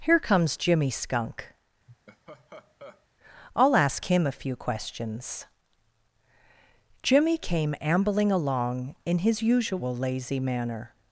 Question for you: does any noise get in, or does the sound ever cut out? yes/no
yes